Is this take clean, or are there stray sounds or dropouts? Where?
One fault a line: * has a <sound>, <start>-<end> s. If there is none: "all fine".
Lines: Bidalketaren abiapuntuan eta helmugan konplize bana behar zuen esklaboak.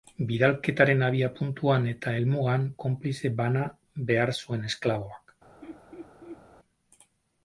* has a laugh, 5.6-6.4 s